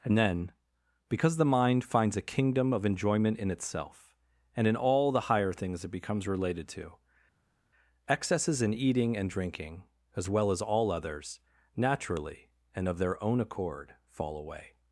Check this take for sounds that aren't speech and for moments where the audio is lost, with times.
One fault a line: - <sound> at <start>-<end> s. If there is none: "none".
none